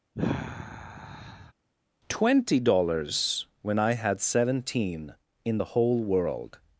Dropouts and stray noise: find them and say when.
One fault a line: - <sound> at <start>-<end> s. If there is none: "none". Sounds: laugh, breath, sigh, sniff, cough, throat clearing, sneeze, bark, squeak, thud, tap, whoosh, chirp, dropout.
- sigh at 0.1-1.5 s